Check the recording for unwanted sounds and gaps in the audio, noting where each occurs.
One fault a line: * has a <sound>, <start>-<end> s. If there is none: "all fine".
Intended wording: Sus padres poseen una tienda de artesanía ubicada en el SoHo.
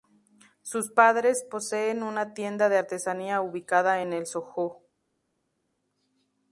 all fine